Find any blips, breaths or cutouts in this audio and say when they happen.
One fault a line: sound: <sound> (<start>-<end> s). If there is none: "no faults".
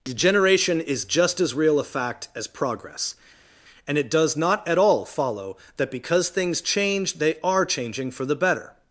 no faults